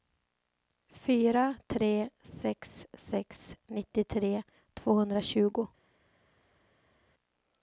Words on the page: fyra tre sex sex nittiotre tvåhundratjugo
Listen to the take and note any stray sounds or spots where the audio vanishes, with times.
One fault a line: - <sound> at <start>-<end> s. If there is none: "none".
none